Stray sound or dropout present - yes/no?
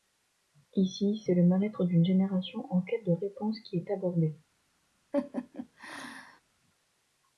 yes